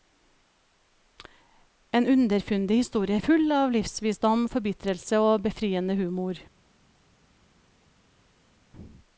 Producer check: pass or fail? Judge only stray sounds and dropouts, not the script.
pass